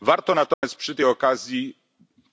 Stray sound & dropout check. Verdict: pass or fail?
fail